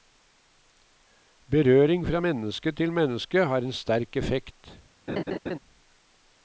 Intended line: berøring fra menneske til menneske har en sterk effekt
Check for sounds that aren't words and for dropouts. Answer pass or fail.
fail